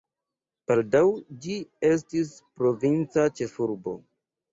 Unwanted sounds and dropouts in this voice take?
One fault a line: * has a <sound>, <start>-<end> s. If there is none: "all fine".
all fine